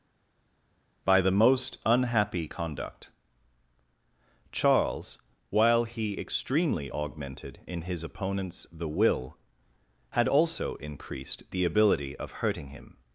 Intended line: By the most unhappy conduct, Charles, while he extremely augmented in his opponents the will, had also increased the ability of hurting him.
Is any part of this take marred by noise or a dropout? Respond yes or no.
no